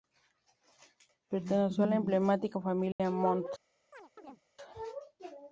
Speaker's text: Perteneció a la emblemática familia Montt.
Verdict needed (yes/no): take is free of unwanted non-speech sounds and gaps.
no